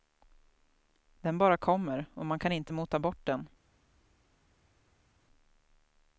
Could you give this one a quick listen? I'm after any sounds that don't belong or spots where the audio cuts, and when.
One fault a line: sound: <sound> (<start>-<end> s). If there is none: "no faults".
no faults